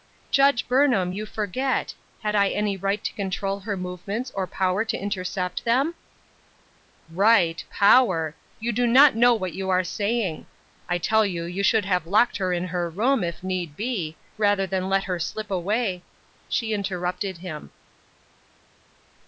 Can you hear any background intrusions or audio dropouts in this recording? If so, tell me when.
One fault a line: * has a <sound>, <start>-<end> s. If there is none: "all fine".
all fine